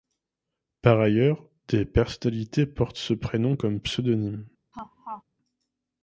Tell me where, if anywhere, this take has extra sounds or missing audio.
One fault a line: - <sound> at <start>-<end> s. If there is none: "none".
- laugh at 4.7-5.2 s